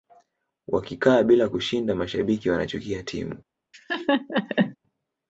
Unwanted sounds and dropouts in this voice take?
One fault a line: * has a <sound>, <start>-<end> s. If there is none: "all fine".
* has a laugh, 3.7-4.8 s